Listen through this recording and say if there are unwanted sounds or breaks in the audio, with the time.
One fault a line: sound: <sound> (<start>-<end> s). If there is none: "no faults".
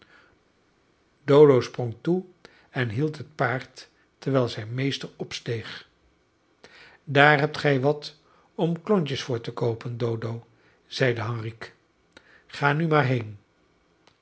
no faults